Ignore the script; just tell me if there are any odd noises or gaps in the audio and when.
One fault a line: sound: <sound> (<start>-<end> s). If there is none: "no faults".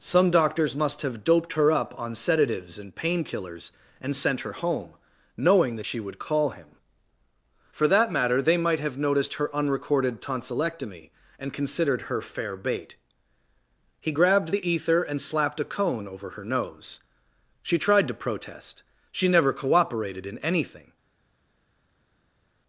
no faults